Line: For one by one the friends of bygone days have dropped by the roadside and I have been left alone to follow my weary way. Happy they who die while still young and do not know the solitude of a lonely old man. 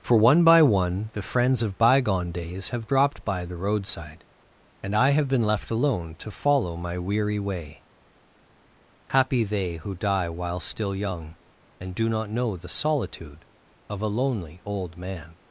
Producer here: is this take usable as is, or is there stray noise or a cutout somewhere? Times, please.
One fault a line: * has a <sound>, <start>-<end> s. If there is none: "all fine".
all fine